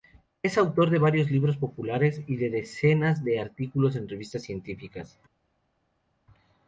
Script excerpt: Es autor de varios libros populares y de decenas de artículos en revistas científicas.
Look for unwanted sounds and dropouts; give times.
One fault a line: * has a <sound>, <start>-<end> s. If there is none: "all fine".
all fine